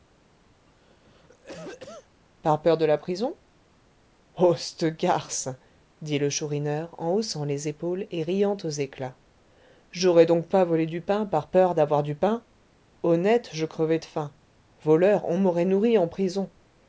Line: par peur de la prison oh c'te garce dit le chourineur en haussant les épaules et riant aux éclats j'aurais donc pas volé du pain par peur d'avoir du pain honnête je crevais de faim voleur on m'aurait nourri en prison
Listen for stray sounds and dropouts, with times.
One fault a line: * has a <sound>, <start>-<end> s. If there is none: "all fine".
* has a cough, 0.7-2.2 s